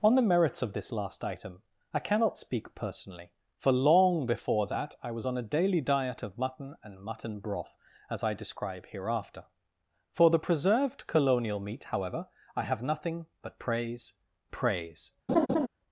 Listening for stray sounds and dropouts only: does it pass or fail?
fail